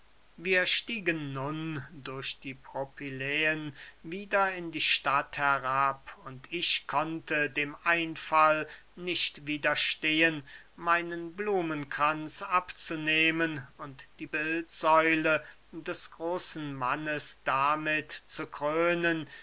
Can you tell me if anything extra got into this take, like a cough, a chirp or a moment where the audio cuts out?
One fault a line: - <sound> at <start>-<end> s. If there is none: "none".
none